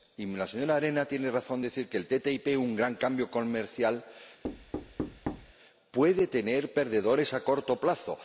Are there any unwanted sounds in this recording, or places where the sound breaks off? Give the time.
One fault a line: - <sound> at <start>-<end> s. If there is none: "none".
- thud at 4.4-5.5 s